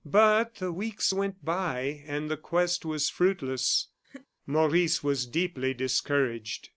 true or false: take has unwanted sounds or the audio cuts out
true